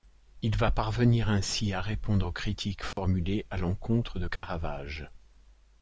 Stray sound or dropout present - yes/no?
yes